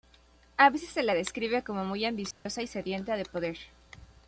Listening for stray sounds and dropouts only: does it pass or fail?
fail